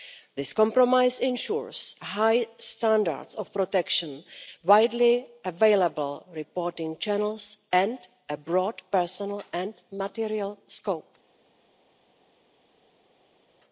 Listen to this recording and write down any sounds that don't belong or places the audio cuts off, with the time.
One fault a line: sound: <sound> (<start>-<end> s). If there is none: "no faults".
no faults